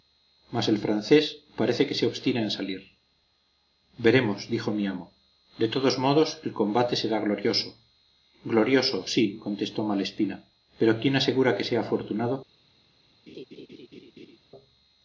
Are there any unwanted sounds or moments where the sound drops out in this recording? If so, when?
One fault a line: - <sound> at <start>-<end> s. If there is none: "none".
- laugh at 13.3-14.4 s